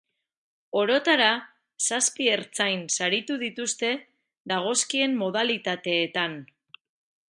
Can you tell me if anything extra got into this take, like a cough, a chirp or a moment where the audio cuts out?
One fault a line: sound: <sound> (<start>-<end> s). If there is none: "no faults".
no faults